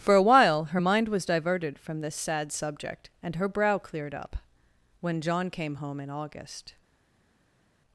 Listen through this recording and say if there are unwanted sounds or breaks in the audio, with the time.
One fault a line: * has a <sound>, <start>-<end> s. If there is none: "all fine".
all fine